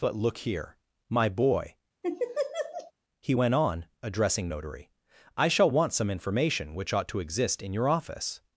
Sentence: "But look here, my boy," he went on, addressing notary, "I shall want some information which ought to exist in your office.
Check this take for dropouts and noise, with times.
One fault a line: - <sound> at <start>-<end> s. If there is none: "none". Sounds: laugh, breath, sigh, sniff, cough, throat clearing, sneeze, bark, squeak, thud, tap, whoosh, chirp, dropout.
- laugh at 2.0-2.9 s